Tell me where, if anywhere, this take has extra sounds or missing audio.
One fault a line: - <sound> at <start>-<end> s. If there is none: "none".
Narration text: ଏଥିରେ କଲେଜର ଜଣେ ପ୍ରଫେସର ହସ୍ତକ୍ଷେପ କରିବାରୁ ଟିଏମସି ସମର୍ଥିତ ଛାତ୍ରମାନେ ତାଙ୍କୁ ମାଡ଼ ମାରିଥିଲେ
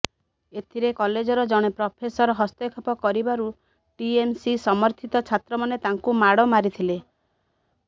none